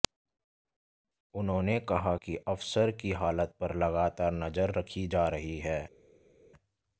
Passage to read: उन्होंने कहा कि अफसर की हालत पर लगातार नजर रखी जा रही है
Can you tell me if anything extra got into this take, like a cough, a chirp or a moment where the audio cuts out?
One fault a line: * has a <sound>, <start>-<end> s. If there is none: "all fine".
all fine